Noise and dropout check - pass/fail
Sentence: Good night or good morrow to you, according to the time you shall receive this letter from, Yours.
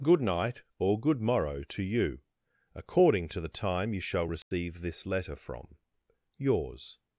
fail